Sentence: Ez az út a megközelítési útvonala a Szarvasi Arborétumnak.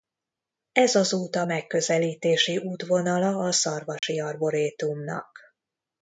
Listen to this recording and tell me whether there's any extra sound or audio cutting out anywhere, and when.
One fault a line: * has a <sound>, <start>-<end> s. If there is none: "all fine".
* has a dropout, 4.0-4.0 s